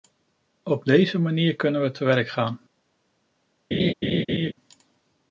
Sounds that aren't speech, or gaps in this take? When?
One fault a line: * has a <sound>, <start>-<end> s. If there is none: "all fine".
* has a laugh, 3.7-4.5 s